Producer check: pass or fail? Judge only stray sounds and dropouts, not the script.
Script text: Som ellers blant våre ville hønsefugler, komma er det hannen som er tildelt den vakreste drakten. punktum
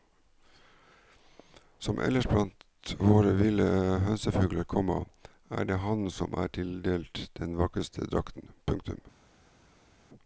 pass